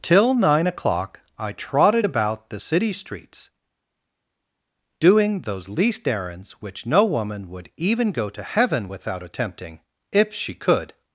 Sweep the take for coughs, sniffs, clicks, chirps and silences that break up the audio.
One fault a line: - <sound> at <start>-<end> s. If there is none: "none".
none